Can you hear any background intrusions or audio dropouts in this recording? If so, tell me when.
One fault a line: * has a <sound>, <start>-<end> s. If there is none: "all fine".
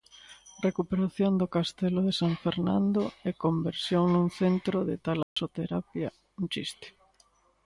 * has a dropout, 5.2-5.4 s